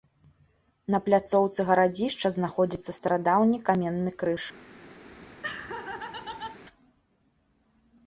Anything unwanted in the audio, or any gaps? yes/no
yes